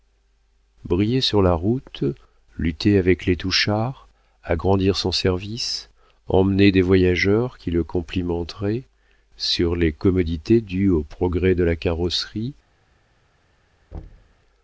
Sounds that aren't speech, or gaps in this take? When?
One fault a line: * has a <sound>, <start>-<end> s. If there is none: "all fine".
* has a thud, 13.9-14.4 s